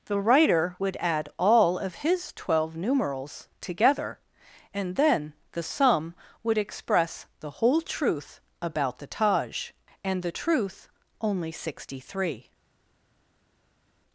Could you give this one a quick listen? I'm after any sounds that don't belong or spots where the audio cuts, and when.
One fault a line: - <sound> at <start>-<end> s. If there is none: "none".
none